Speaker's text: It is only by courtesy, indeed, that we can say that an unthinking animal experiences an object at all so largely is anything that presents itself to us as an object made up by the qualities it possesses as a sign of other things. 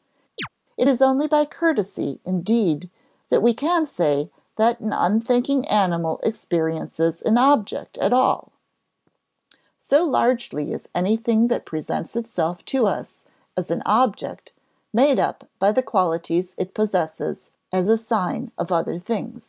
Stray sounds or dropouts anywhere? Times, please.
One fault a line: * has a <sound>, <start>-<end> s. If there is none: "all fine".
* has a chirp, 0.4-0.5 s